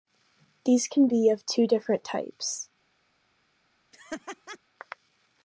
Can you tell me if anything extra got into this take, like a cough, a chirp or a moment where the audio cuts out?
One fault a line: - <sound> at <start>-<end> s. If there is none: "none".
- laugh at 3.9-4.6 s